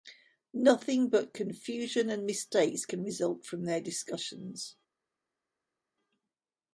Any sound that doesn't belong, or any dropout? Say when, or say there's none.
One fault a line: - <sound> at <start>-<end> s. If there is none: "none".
none